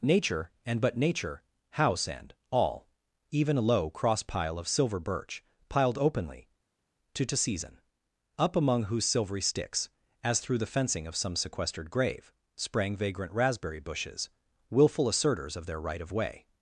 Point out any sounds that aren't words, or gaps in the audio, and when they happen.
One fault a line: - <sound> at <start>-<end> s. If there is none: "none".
none